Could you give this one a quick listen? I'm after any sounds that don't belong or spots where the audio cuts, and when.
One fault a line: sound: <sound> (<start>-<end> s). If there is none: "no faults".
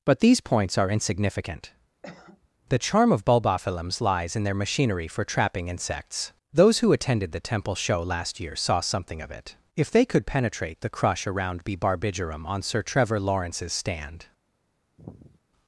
sound: cough (2.0-2.5 s)
sound: sigh (15.0-15.4 s)